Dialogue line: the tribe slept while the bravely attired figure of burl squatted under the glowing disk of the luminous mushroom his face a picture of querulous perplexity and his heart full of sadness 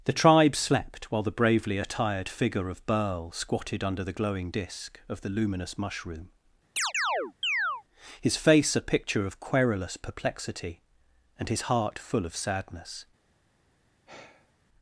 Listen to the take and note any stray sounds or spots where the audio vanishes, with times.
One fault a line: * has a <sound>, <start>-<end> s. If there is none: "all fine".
* has a chirp, 6.8-7.8 s
* has a sigh, 14.1-14.5 s